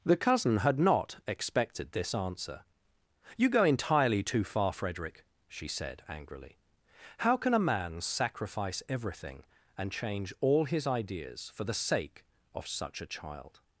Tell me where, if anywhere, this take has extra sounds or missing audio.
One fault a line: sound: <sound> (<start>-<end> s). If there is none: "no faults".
no faults